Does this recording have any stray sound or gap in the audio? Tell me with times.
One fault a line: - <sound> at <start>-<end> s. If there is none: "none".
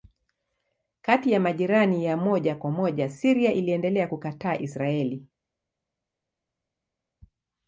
none